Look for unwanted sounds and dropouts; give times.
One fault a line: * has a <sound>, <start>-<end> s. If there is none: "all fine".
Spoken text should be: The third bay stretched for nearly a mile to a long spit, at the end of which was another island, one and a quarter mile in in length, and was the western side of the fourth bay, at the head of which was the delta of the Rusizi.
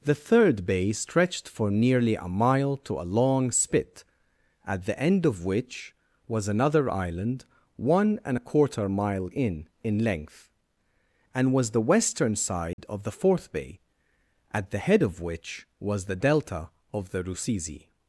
* has a dropout, 12.7-12.8 s